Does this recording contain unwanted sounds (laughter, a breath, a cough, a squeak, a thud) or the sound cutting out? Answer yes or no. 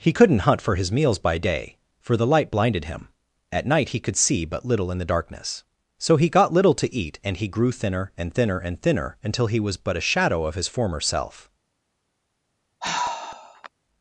yes